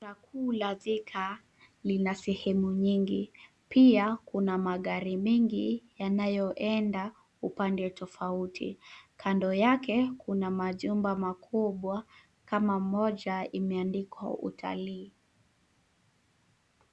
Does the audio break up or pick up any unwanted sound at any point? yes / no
no